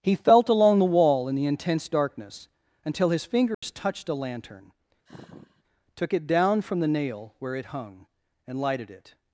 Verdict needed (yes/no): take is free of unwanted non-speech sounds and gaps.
no